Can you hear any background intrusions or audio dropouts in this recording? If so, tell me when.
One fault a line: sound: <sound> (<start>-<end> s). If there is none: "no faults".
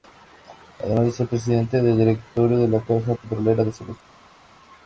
no faults